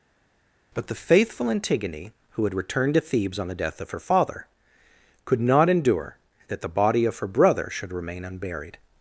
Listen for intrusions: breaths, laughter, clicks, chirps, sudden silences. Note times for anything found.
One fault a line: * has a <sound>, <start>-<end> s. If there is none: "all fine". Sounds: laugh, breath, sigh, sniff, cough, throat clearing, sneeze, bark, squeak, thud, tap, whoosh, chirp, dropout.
all fine